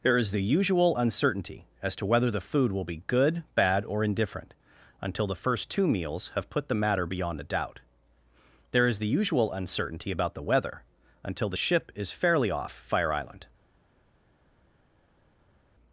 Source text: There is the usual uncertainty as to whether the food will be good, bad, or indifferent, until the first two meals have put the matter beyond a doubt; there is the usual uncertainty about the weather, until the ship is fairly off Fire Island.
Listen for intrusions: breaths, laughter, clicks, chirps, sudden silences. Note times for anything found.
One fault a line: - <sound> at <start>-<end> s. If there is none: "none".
none